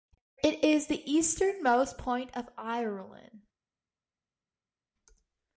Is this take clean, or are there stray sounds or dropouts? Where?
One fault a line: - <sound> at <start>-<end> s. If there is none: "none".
none